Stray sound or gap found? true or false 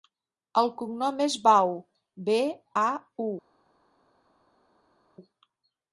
false